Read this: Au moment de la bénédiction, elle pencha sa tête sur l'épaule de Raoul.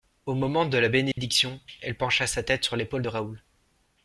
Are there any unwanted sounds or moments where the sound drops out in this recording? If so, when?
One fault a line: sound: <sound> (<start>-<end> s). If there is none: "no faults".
sound: dropout (1.1-1.2 s)